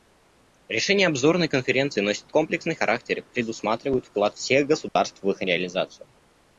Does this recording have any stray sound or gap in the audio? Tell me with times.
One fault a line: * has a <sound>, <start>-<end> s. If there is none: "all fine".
* has a dropout, 4.9-5.0 s